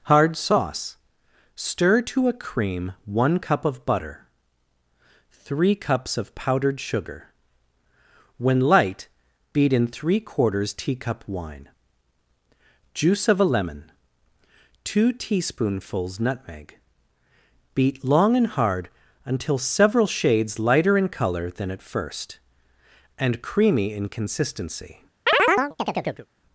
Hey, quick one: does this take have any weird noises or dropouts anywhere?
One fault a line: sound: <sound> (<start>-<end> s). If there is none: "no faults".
sound: chirp (25.3-26.3 s)